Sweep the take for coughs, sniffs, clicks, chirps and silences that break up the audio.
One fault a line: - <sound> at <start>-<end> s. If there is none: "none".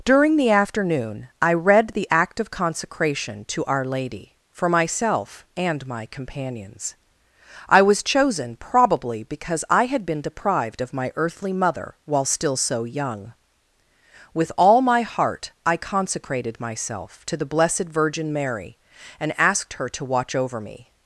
none